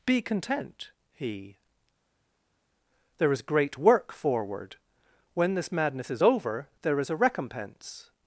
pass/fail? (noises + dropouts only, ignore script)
pass